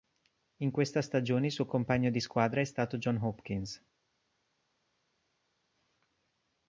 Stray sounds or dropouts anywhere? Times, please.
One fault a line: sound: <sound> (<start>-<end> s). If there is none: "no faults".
no faults